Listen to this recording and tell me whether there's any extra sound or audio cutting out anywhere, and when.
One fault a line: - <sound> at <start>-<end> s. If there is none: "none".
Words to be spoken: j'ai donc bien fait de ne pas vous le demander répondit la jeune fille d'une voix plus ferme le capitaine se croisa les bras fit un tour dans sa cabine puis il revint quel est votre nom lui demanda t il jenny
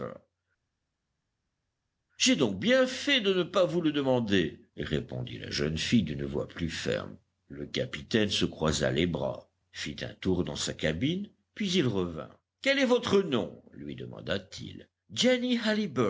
none